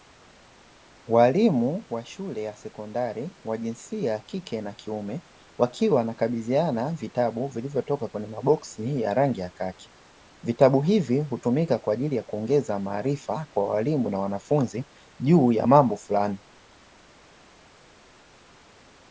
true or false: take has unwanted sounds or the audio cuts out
false